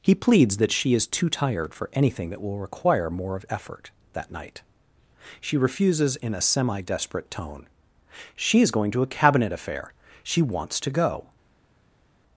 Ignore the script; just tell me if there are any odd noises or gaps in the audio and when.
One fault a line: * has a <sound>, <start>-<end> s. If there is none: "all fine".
all fine